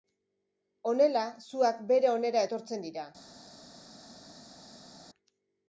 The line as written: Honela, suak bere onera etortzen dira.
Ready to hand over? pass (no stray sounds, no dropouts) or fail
pass